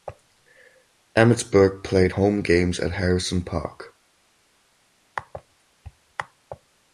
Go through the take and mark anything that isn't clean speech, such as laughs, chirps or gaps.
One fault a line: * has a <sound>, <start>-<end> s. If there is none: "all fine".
all fine